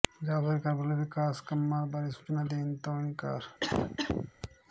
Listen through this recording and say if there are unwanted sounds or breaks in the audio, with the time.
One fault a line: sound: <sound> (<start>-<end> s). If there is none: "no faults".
sound: cough (3.6-4.3 s)